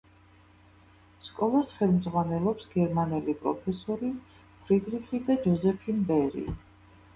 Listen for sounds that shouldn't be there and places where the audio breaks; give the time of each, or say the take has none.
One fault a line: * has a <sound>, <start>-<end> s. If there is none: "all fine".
all fine